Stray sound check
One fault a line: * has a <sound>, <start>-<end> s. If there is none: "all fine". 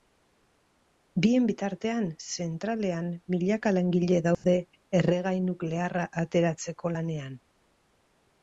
* has a dropout, 4.3-4.4 s